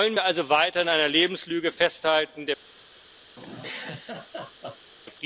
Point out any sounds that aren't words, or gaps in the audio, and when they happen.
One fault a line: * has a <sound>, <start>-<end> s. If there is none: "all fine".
* has a laugh, 3.4-4.9 s